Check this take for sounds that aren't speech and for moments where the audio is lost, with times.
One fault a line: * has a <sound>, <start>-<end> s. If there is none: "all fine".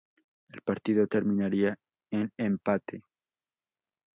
all fine